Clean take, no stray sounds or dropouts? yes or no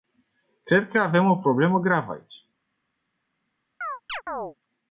no